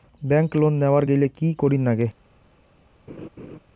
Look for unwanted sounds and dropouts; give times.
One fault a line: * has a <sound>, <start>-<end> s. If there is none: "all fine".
* has a laugh, 3.1-3.6 s